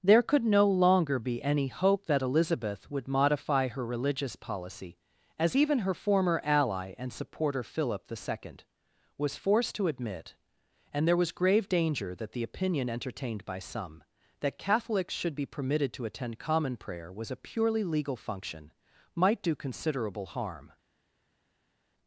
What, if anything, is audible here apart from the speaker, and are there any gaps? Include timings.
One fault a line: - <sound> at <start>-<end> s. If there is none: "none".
none